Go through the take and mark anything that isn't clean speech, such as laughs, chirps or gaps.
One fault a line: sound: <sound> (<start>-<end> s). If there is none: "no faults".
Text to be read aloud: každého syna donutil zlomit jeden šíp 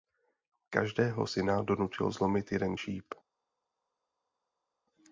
no faults